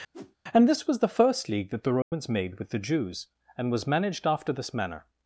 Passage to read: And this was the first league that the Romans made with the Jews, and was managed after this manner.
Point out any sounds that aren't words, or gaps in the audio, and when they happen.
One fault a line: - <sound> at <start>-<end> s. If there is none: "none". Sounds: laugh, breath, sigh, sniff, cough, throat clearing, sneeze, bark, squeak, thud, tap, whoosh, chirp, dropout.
- whoosh at 0.1-0.4 s
- dropout at 2.0-2.1 s